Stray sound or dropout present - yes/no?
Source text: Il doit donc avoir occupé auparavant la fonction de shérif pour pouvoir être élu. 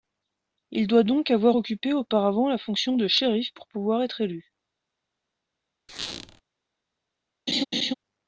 yes